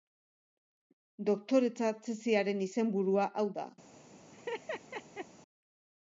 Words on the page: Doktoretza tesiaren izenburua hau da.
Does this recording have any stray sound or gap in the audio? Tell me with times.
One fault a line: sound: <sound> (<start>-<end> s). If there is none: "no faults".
sound: laugh (4.3-5.3 s)